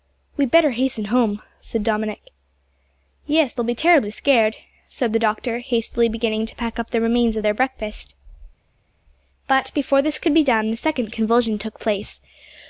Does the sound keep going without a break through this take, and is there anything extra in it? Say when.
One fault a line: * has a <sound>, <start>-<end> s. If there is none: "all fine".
all fine